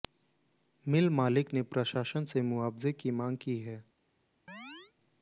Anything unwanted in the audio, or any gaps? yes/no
yes